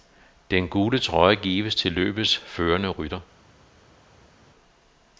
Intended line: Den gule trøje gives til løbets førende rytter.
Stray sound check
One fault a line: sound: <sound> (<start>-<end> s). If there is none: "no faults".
no faults